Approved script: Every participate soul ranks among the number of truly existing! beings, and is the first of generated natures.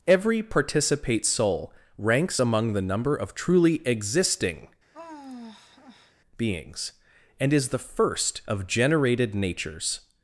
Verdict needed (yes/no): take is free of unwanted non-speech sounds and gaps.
no